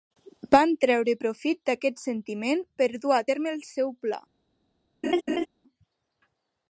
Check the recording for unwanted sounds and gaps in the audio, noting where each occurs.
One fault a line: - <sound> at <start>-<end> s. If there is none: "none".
- laugh at 5.0-5.5 s